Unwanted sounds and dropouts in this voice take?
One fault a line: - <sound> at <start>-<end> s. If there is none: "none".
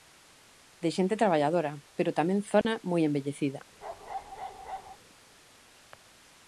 - dropout at 2.6-2.7 s
- bark at 3.8-5.0 s